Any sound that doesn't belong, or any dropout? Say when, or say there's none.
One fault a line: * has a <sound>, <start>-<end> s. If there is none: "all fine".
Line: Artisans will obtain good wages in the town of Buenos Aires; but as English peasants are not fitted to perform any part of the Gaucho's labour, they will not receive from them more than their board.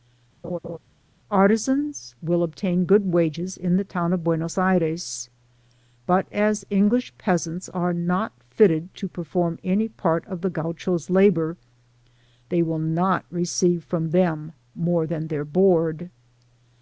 * has a laugh, 0.4-0.8 s